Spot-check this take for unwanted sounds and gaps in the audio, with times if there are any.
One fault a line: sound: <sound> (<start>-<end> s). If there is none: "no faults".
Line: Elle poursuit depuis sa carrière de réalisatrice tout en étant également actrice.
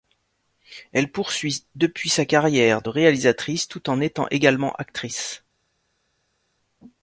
no faults